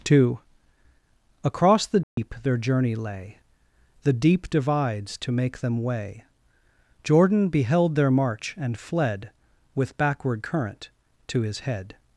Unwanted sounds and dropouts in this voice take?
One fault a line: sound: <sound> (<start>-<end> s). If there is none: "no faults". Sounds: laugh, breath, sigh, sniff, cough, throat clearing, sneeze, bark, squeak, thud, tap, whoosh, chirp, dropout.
sound: dropout (2.0-2.2 s)